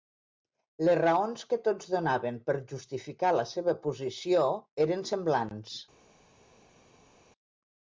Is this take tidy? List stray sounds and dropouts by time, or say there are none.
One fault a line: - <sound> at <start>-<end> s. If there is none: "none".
none